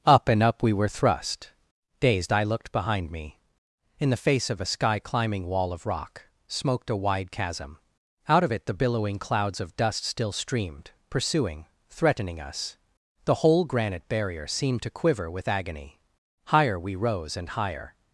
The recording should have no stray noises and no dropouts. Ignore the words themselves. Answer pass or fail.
pass